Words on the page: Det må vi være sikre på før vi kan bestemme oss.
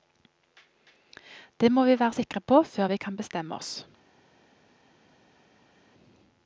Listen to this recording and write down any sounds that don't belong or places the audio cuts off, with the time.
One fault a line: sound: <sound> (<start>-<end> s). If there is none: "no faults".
no faults